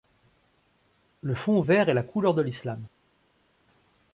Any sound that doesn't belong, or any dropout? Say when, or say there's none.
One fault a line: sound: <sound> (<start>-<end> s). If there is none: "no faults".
no faults